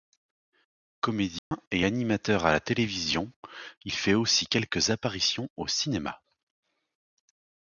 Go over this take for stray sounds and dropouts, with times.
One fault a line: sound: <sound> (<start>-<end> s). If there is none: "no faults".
sound: dropout (1.4-1.5 s)